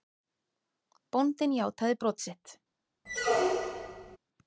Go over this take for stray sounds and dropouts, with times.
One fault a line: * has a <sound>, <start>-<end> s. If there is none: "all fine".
* has a squeak, 3.1-4.2 s